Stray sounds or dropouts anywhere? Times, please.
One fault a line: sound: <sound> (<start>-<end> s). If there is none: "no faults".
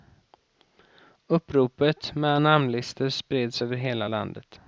no faults